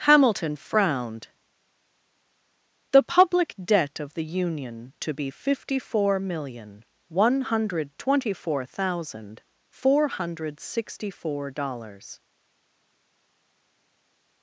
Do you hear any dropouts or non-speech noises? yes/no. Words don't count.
no